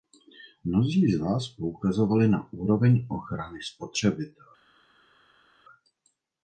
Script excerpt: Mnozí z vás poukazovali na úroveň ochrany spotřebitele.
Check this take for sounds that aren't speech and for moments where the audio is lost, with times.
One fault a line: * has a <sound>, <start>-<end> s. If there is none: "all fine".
all fine